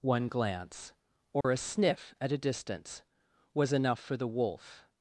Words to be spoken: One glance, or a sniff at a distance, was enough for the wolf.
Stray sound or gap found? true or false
true